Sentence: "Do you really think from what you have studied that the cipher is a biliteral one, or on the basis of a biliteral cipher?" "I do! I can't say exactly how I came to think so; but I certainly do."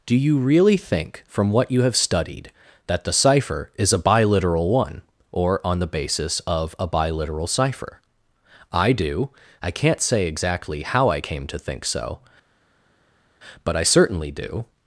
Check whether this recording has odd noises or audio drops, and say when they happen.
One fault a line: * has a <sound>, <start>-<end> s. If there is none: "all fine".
all fine